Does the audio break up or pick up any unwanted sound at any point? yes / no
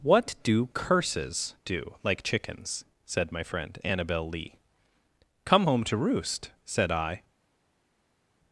no